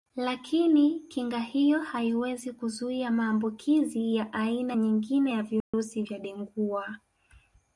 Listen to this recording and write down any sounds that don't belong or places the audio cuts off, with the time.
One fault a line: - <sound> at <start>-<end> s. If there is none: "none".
- dropout at 5.6-5.7 s